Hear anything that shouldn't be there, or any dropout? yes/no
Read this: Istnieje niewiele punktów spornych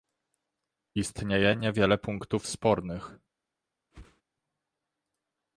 yes